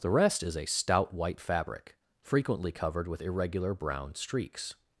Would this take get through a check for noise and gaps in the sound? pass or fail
pass